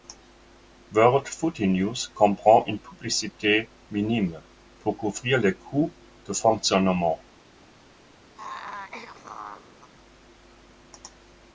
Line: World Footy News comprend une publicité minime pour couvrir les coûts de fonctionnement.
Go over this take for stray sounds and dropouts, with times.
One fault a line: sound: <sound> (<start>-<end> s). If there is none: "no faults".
sound: throat clearing (8.3-9.9 s)